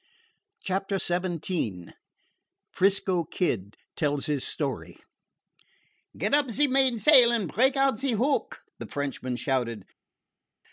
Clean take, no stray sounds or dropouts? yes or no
yes